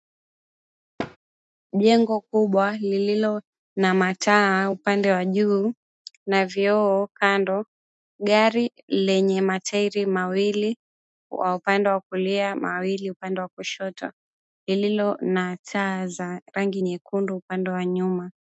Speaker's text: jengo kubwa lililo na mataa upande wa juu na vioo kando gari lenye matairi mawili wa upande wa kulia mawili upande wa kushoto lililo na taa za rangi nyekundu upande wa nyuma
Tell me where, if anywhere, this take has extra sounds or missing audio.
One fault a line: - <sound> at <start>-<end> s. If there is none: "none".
- thud at 1.0-1.2 s